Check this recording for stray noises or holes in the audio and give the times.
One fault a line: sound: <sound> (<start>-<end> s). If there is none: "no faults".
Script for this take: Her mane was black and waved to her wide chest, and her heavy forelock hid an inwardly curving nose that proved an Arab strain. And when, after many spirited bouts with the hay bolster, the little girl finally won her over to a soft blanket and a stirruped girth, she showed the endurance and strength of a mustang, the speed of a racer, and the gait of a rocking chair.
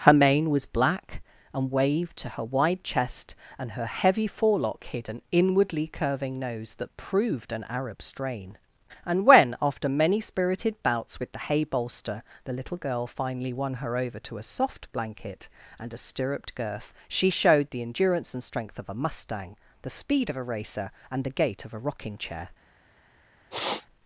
sound: sniff (23.5-23.9 s)